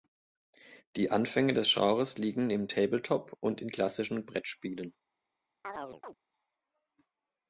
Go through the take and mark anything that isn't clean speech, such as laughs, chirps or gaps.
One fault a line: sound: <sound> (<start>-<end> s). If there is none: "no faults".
sound: chirp (5.6-6.1 s)